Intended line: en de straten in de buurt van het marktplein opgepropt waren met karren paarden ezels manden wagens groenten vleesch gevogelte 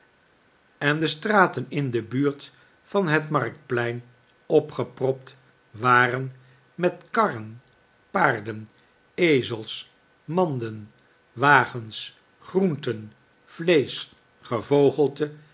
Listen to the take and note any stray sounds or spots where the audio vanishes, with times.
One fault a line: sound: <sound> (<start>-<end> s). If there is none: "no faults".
no faults